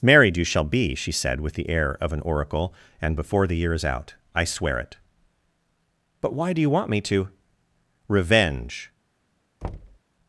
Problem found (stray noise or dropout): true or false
true